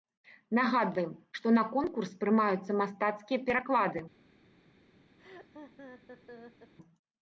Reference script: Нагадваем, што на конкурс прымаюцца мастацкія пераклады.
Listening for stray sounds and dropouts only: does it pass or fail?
fail